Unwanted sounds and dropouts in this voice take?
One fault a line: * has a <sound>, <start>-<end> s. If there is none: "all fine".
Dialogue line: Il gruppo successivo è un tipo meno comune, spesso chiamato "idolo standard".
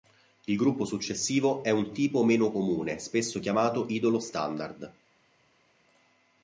all fine